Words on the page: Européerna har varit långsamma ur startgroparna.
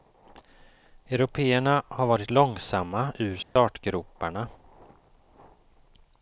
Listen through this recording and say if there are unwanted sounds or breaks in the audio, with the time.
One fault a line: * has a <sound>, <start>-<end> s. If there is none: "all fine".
* has a dropout, 3.4-3.6 s